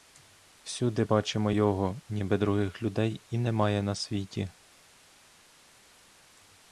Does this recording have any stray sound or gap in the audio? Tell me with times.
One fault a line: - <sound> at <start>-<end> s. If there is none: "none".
none